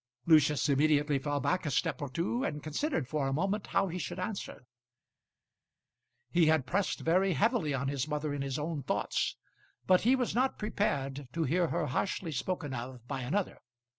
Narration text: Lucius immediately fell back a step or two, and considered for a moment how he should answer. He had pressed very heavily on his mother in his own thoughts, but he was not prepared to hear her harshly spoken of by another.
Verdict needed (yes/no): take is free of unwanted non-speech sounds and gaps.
yes